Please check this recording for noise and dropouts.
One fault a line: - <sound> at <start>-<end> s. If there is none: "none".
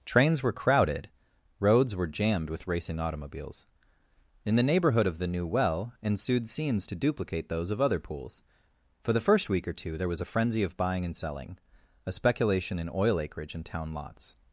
none